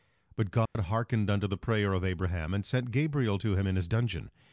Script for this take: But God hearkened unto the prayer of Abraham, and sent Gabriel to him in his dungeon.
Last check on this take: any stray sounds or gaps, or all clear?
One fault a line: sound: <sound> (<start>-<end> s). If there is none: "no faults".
sound: dropout (0.7-0.8 s)